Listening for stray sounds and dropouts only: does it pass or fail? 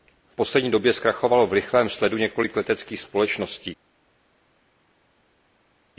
pass